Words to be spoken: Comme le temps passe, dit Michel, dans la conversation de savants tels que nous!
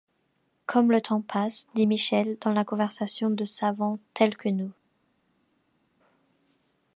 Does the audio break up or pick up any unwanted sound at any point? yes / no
no